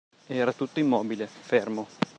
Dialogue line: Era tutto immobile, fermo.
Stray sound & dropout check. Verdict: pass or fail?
pass